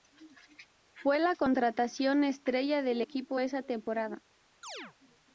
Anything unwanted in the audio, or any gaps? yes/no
yes